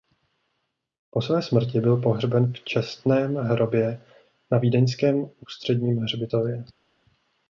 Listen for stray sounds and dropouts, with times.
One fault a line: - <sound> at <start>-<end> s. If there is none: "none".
none